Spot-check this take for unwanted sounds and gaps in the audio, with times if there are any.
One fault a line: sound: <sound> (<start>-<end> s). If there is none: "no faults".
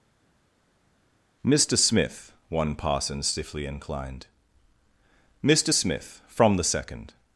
no faults